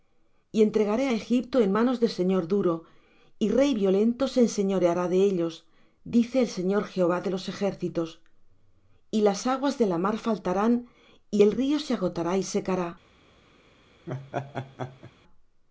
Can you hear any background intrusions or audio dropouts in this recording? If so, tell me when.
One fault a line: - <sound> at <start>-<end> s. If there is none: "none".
- laugh at 14.1-15.1 s